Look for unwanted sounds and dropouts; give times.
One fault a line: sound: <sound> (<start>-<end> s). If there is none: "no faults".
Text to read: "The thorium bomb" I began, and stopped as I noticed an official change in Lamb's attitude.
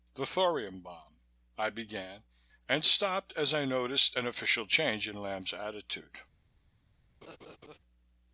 sound: laugh (7.2-7.8 s)